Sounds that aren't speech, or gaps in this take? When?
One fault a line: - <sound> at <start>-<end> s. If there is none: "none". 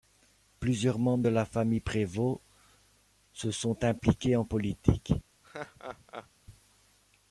- laugh at 5.4-6.3 s